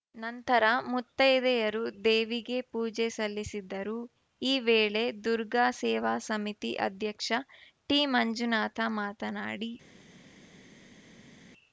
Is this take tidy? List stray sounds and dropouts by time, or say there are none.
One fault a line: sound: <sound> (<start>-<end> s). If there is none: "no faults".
no faults